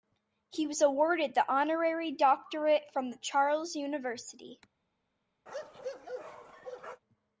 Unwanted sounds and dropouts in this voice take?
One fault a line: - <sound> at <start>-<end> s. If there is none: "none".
- bark at 5.5-7.0 s